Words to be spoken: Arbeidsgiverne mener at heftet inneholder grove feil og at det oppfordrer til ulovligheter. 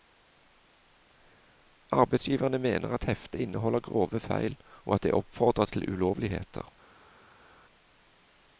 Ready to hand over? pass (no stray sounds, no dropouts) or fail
pass